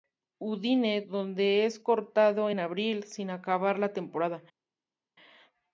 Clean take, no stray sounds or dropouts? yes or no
yes